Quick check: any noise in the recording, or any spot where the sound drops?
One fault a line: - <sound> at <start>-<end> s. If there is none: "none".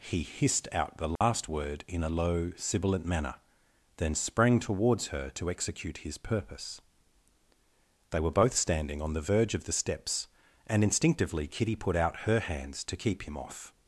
- dropout at 1.2-1.2 s